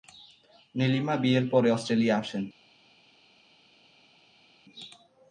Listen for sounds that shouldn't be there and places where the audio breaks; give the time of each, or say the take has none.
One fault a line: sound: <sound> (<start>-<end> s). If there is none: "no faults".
no faults